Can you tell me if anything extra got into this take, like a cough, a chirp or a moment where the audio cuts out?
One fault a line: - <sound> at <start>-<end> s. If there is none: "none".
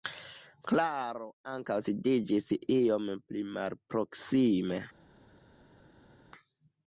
none